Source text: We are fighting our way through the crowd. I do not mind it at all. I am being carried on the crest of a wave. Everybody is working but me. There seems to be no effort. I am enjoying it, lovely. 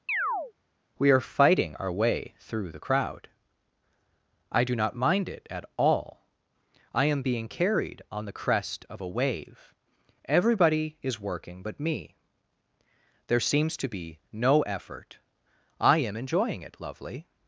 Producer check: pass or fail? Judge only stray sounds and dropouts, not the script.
fail